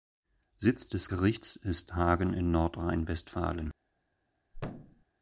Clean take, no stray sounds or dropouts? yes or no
no